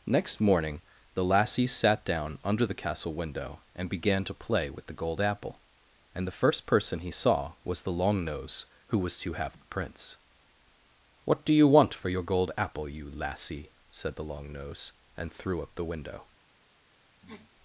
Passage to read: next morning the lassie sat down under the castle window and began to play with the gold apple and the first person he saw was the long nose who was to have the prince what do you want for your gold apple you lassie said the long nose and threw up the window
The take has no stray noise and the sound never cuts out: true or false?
false